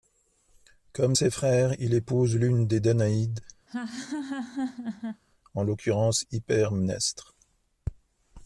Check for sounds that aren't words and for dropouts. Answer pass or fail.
fail